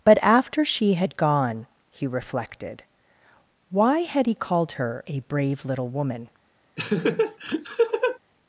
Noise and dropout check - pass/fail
fail